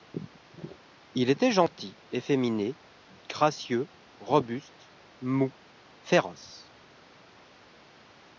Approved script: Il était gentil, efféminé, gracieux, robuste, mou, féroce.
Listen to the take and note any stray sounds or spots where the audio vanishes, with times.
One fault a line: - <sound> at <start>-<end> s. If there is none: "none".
none